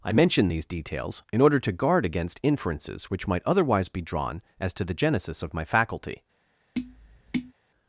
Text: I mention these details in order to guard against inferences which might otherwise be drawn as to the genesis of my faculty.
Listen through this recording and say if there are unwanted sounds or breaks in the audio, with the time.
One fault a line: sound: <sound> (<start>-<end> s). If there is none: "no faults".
sound: tap (6.7-7.5 s)